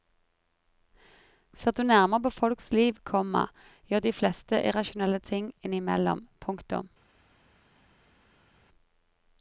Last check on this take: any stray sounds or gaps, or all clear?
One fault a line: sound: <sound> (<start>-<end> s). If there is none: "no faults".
no faults